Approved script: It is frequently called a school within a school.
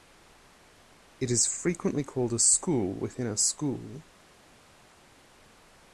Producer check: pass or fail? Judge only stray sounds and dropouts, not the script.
pass